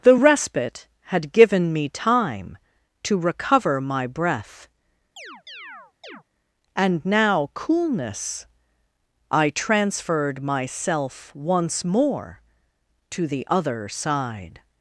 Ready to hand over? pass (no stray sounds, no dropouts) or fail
fail